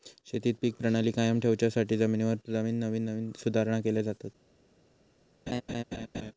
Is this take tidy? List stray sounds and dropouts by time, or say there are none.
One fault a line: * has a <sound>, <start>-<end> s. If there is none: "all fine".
* has a laugh, 5.5-6.3 s